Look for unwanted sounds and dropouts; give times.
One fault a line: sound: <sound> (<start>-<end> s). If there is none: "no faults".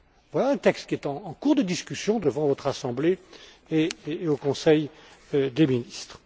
no faults